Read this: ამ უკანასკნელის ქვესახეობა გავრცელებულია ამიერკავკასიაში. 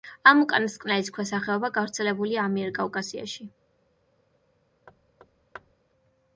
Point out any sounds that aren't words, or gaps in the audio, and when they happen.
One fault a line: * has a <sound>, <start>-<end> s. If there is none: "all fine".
* has a thud, 4.9-5.8 s